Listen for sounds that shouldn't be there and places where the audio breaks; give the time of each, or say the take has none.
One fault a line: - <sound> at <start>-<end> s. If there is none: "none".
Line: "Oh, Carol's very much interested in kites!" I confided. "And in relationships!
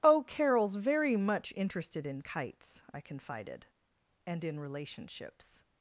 none